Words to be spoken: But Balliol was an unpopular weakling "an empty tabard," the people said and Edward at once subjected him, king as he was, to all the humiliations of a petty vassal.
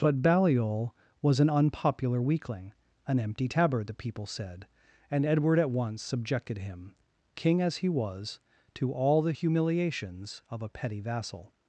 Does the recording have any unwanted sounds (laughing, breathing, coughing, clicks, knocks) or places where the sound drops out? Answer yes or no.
no